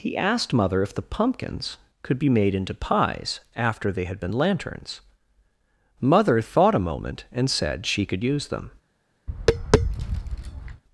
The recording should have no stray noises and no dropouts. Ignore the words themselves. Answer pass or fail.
fail